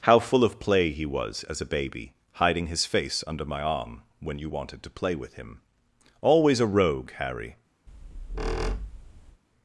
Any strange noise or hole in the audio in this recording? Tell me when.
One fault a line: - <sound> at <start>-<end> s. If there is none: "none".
- squeak at 7.9-9.4 s